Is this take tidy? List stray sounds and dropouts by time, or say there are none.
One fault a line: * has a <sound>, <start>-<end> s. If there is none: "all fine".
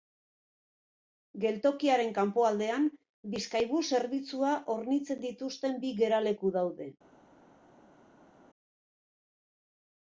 all fine